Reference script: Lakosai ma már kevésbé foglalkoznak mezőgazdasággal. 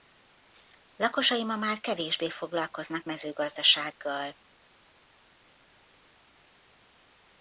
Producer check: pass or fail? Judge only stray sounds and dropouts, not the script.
pass